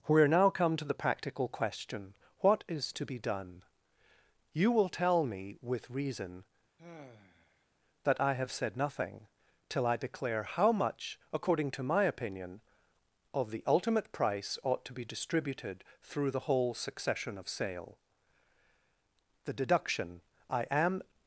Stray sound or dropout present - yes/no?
yes